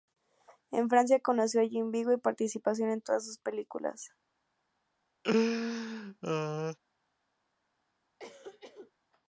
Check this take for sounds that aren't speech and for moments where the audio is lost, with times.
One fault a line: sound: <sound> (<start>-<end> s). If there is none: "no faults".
sound: laugh (5.2-6.8 s)
sound: cough (8.2-8.9 s)